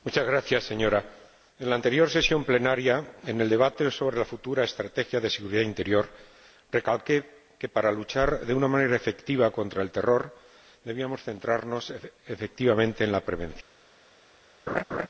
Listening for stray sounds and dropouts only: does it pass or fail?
fail